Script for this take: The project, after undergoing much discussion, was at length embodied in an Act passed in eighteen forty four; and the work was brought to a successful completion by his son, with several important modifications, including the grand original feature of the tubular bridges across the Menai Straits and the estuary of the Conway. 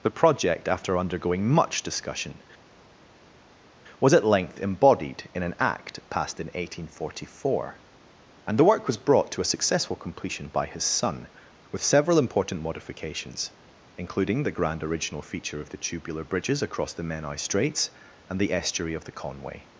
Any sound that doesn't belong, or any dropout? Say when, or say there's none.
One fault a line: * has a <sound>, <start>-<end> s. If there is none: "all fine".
all fine